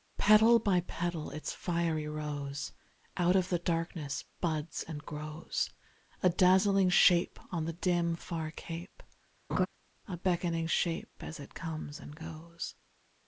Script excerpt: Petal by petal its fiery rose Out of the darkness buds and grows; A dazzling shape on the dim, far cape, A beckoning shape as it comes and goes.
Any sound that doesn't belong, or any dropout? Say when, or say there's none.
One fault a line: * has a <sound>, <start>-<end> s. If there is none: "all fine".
* has a laugh, 9.5-9.7 s